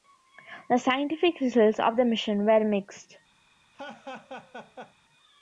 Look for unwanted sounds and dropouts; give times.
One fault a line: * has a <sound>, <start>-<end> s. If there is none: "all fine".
* has a laugh, 3.7-4.9 s